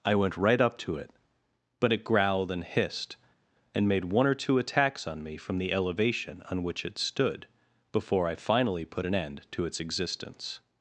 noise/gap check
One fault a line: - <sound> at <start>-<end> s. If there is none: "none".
none